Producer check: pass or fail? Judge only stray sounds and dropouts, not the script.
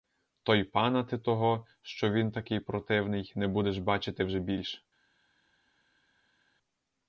pass